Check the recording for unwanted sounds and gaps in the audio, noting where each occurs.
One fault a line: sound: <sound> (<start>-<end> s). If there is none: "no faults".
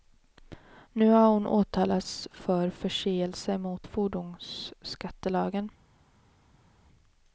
no faults